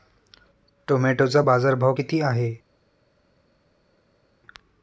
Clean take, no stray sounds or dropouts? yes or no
yes